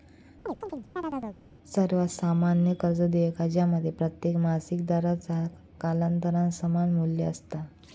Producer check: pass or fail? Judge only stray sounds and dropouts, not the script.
fail